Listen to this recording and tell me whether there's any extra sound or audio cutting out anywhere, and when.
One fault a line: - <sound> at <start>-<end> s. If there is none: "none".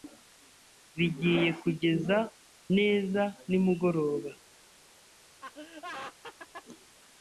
- laugh at 5.4-6.7 s